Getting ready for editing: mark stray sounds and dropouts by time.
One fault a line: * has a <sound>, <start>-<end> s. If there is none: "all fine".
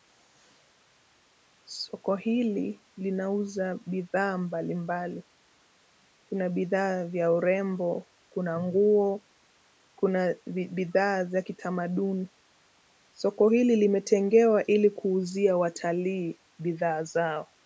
all fine